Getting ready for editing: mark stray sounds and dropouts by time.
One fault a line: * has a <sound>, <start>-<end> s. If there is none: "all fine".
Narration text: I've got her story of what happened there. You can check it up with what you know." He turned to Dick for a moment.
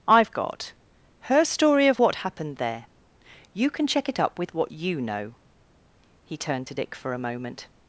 all fine